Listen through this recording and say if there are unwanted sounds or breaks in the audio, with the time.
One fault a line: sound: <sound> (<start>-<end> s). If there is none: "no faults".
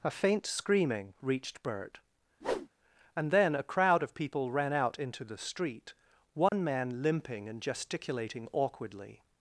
sound: whoosh (2.4-2.7 s)
sound: dropout (6.5-6.5 s)